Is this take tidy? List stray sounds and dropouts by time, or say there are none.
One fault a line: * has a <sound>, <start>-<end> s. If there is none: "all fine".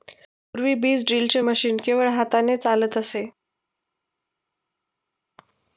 all fine